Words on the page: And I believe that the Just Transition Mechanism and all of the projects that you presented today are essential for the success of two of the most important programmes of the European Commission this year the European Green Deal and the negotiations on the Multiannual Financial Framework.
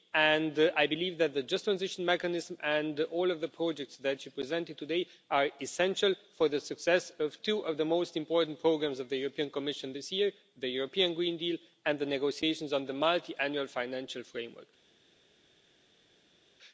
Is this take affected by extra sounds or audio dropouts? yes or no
no